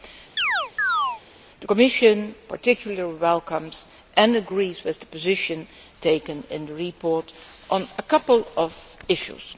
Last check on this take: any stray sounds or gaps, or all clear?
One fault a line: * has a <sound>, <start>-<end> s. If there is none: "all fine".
* has a chirp, 0.4-1.2 s